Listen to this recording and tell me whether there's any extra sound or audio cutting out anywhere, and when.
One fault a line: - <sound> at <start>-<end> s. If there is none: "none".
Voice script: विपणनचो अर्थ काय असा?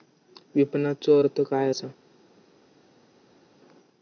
none